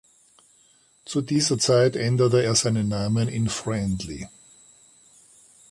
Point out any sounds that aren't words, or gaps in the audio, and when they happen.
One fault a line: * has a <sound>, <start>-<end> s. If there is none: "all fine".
all fine